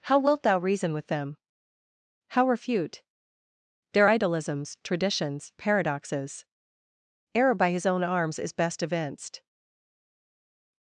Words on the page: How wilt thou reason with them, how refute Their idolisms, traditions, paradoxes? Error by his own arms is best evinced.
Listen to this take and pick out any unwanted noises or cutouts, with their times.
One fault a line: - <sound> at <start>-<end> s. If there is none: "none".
none